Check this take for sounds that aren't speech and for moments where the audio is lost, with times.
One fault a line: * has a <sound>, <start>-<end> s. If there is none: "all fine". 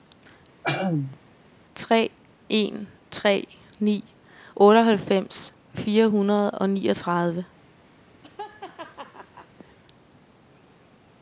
* has a throat clearing, 0.6-1.2 s
* has a laugh, 8.2-9.8 s